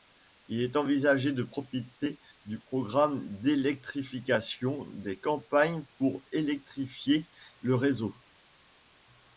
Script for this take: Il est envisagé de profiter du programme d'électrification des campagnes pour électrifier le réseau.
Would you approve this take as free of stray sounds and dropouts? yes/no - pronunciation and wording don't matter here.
yes